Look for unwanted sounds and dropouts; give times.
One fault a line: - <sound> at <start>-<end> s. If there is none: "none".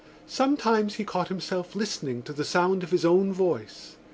none